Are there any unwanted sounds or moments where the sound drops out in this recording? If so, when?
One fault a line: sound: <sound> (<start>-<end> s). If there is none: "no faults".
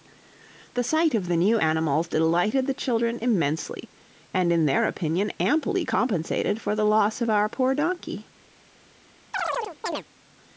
sound: chirp (9.3-10.0 s)